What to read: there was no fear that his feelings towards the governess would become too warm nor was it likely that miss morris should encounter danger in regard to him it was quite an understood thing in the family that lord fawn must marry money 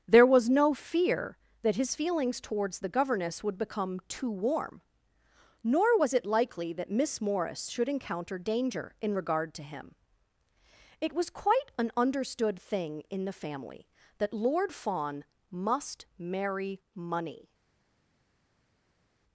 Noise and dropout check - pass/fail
pass